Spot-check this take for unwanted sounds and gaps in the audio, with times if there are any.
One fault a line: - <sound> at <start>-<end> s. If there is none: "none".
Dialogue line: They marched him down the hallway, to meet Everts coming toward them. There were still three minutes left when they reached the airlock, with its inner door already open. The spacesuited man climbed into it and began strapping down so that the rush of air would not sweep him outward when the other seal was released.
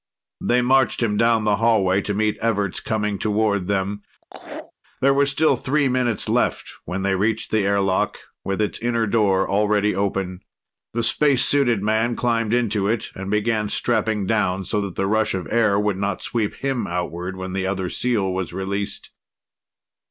- laugh at 4.2-4.7 s